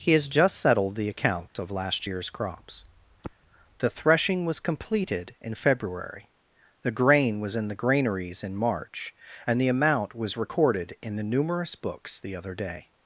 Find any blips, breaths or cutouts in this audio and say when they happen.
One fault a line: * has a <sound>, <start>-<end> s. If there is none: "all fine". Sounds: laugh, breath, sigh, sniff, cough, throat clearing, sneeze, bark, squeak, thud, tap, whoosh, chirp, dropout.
* has a dropout, 1.5-1.6 s
* has a sigh, 3.2-3.4 s